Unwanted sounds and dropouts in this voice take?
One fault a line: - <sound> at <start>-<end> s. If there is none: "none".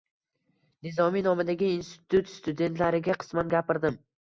none